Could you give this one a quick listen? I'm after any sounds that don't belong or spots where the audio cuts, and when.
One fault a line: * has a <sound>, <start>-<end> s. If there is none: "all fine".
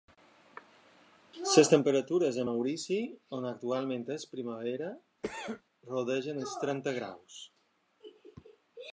* has a cough, 5.2-5.6 s